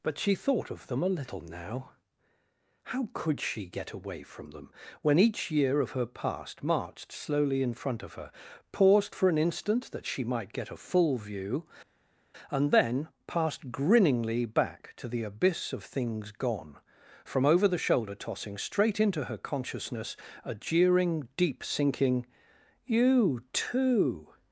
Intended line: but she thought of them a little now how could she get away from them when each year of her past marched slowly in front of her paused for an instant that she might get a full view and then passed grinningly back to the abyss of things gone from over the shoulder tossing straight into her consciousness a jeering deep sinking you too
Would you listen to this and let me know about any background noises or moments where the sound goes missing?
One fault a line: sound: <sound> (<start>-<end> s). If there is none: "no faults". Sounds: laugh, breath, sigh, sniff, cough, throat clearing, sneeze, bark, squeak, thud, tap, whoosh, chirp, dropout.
no faults